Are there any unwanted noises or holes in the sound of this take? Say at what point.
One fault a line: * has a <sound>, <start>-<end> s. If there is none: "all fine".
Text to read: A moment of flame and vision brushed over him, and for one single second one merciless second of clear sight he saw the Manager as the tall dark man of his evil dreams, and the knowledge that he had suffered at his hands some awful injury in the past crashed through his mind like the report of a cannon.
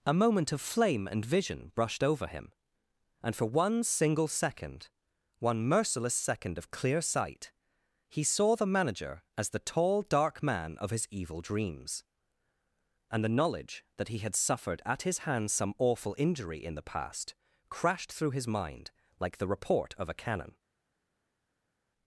all fine